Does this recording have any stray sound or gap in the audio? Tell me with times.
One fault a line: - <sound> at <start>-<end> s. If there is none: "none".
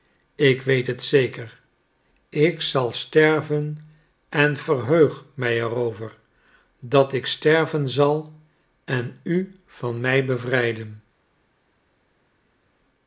none